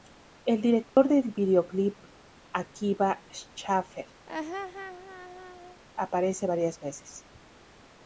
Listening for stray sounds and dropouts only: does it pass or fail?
fail